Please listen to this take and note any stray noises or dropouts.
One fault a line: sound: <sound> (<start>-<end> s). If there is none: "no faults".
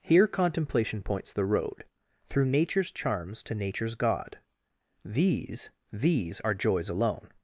no faults